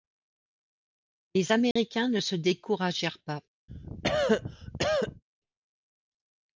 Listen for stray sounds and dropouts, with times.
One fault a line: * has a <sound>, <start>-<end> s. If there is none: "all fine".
* has a dropout, 1.7-1.8 s
* has a cough, 3.7-5.2 s